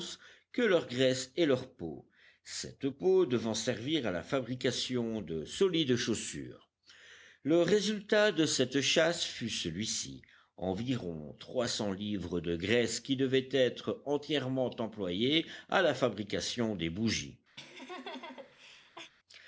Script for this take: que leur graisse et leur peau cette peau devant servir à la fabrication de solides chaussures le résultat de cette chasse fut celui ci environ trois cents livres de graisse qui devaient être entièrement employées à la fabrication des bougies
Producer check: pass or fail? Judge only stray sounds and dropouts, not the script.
fail